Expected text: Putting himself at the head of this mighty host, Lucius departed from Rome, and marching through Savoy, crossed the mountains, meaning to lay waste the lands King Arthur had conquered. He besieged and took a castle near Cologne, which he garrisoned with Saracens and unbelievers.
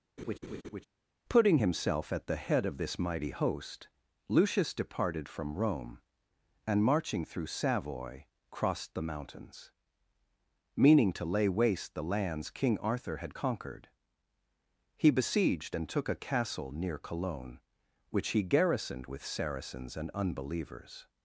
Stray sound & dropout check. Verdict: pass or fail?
fail